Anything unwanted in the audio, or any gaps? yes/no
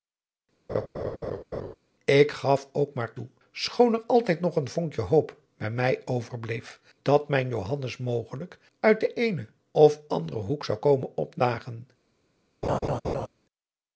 yes